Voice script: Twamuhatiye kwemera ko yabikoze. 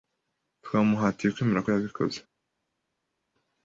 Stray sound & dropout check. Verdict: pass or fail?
pass